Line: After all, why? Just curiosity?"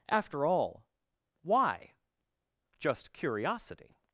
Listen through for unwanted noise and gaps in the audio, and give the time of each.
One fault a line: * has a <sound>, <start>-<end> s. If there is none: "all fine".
all fine